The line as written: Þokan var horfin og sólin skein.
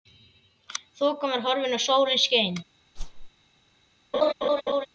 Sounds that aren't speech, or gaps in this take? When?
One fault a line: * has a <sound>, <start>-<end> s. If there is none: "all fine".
* has a whoosh, 3.0-3.3 s
* has a laugh, 4.1-4.9 s